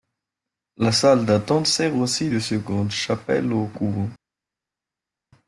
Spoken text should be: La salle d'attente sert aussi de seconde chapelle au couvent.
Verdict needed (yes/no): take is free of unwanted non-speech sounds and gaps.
yes